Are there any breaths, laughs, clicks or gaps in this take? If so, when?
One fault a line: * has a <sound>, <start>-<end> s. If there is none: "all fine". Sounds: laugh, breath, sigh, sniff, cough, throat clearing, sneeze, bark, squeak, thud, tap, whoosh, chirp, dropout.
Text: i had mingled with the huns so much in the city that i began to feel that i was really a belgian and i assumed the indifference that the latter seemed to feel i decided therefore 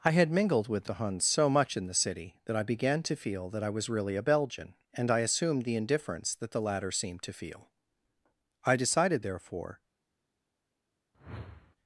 * has a whoosh, 11.1-11.8 s